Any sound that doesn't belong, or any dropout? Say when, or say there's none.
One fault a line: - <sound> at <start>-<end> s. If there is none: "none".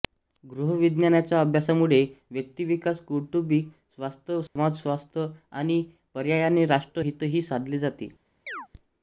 - dropout at 4.5-4.6 s
- chirp at 8.5-8.7 s